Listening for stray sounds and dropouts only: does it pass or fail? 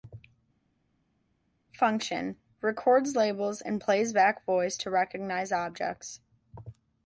pass